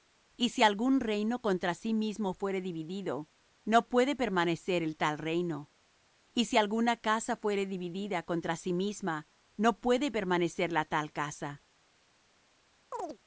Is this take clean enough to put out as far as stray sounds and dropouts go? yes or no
no